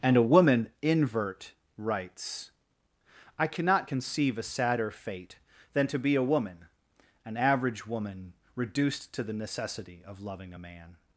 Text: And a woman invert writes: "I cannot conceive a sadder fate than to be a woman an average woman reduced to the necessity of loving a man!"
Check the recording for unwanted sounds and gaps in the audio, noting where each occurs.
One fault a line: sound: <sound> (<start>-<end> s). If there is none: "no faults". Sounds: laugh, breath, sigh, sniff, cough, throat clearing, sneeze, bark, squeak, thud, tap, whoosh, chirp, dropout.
no faults